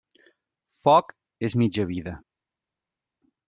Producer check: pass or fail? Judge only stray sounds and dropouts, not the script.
pass